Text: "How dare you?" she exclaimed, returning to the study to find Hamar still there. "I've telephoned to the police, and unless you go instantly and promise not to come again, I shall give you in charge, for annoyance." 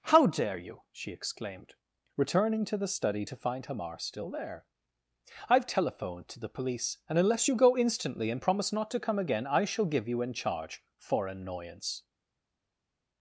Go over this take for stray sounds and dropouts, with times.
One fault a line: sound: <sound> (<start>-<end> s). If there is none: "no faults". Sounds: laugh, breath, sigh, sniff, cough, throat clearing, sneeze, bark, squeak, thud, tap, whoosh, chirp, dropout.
no faults